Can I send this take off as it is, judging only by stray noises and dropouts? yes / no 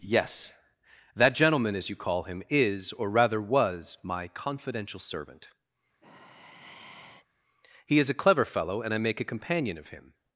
no